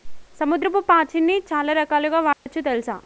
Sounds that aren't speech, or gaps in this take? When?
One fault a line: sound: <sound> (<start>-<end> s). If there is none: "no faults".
sound: dropout (2.3-2.5 s)